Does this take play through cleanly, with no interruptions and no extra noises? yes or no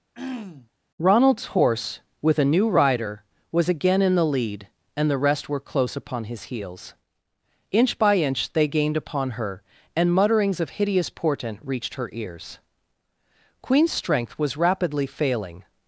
no